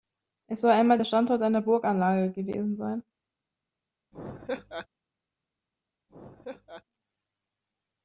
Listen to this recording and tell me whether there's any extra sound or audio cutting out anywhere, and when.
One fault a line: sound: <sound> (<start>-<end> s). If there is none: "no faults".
sound: laugh (4.1-4.9 s)
sound: laugh (6.1-6.8 s)